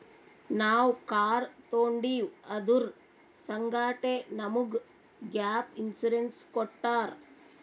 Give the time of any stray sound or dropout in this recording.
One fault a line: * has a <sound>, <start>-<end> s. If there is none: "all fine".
all fine